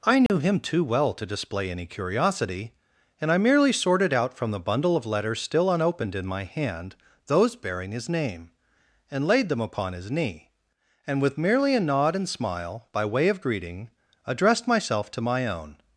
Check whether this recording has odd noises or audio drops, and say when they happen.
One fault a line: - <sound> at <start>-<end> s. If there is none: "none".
- dropout at 0.3-0.3 s